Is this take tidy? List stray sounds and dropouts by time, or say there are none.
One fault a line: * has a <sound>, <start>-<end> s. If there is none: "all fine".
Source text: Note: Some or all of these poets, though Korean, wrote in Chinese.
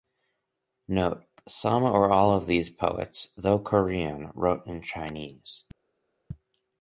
all fine